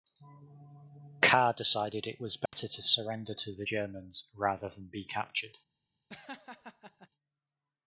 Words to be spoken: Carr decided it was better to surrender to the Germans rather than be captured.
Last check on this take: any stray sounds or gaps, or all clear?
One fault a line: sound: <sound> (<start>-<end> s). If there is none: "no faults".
sound: dropout (2.5-2.5 s)
sound: laugh (6.1-7.1 s)